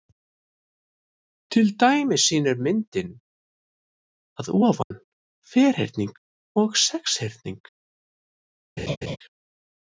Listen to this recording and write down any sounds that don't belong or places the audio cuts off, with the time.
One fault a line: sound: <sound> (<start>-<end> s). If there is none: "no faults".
sound: dropout (4.8-4.9 s)
sound: laugh (8.8-9.2 s)